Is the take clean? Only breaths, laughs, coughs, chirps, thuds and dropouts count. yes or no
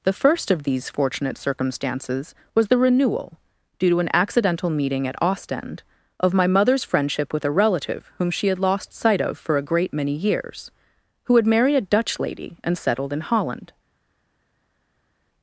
yes